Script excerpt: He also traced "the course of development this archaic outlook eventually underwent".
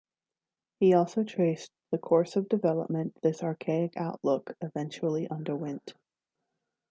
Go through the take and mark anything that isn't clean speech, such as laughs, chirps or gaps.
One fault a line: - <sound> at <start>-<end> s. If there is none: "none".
none